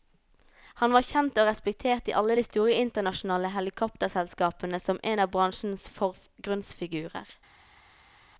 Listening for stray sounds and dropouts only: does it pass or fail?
pass